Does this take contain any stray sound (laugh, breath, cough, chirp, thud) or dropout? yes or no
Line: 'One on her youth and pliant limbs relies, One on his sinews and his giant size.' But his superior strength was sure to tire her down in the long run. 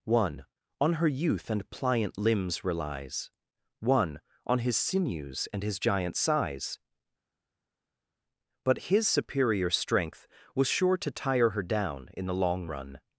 no